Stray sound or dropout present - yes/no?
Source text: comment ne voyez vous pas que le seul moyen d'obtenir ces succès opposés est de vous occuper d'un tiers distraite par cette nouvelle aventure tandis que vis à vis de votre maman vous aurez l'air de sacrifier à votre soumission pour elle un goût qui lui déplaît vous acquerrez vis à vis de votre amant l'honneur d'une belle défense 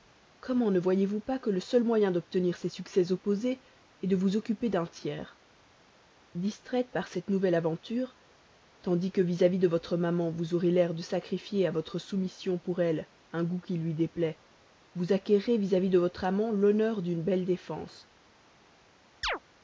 yes